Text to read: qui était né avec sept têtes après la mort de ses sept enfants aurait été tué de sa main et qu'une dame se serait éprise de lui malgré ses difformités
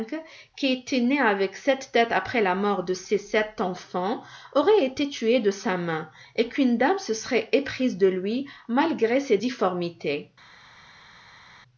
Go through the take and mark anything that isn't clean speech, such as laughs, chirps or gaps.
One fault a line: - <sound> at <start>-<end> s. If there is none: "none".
none